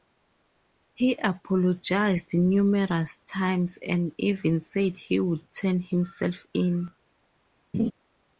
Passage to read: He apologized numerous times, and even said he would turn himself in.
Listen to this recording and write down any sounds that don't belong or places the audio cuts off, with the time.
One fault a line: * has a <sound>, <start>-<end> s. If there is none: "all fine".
* has a laugh, 7.7-7.9 s